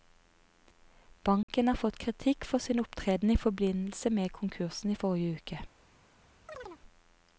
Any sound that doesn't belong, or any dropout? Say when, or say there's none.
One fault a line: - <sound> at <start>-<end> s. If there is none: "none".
- dropout at 1.4-1.5 s
- chirp at 6.5-6.8 s